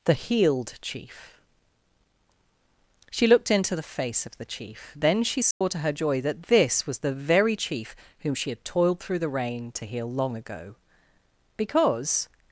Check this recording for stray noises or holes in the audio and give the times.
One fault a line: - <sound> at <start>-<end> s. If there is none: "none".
- dropout at 5.5-5.6 s